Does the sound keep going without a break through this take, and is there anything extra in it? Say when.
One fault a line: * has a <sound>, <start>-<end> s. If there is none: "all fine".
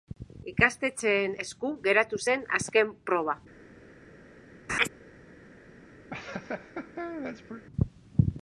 * has a laugh, 4.7-4.9 s
* has a laugh, 6.1-7.7 s